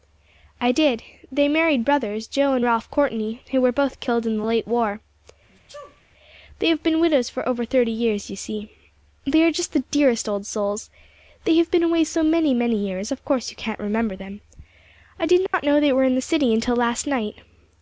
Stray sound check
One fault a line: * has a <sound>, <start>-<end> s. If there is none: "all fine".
* has a sneeze, 5.5-6.0 s
* has a dropout, 15.5-15.5 s